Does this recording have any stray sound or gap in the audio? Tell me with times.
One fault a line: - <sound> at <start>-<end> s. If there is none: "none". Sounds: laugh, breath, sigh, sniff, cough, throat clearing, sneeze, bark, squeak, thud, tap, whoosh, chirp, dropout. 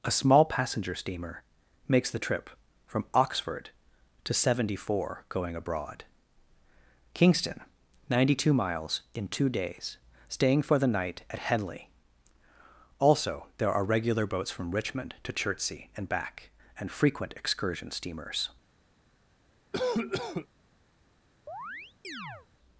- cough at 19.7-20.5 s
- chirp at 21.5-22.5 s